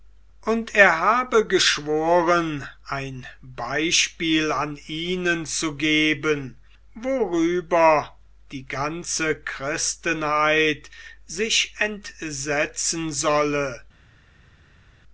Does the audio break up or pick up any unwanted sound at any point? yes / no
no